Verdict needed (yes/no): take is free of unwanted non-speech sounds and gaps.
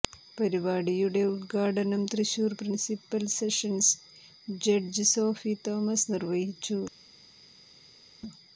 yes